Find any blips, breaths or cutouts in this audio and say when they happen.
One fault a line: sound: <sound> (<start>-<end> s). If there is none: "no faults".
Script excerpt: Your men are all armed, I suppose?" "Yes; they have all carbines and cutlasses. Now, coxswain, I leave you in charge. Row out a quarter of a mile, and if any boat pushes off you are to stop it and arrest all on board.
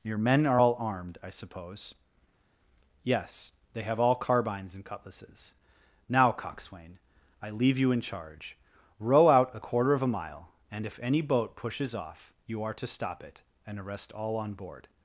no faults